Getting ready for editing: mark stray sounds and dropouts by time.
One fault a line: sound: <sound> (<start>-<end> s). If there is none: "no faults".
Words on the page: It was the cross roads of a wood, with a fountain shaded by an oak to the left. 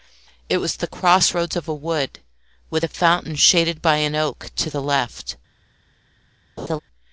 sound: laugh (6.6-6.8 s)